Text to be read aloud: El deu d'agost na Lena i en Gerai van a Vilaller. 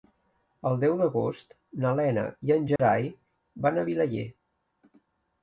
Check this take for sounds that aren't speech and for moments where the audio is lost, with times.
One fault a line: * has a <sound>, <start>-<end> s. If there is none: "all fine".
* has a dropout, 2.8-2.8 s